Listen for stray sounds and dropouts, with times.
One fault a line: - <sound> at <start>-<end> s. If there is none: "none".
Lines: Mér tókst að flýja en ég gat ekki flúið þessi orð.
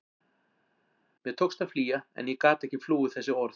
none